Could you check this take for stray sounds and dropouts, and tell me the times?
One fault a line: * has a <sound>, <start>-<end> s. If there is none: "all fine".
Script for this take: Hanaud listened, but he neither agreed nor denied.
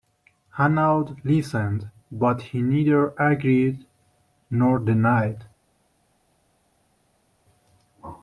all fine